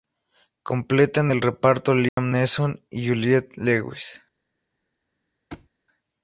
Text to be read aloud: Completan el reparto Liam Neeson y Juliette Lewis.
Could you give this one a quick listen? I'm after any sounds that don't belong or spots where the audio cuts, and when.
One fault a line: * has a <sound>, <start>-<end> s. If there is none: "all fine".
* has a dropout, 2.1-2.2 s
* has a thud, 5.5-5.7 s